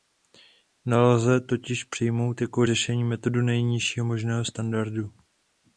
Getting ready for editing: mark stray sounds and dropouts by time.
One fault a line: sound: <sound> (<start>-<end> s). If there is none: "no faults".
no faults